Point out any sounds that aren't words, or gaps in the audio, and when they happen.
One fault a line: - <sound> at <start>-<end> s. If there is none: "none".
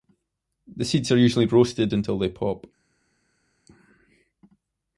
none